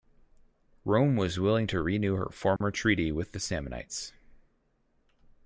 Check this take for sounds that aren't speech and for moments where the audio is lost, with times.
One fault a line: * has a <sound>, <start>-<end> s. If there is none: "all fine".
* has a dropout, 2.6-2.6 s